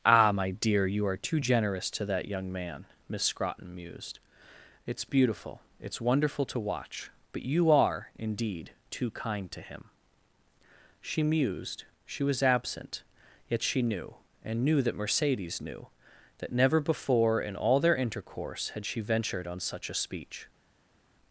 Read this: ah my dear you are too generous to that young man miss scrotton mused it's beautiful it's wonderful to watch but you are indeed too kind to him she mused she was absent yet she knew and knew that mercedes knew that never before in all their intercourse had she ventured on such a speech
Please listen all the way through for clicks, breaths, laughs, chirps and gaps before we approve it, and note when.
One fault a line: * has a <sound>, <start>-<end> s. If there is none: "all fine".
all fine